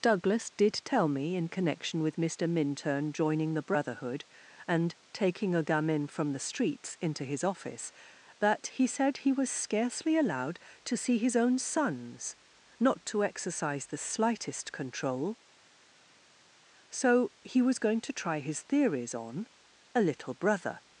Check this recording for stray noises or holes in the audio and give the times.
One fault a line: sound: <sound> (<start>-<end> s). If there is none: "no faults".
no faults